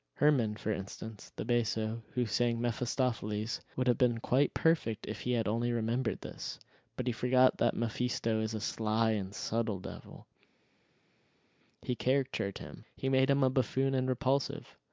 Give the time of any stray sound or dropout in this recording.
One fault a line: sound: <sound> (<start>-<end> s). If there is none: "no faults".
no faults